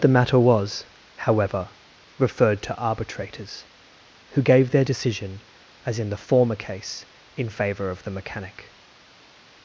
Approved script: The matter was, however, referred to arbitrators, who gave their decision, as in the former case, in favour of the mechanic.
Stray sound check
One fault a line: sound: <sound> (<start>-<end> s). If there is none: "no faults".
no faults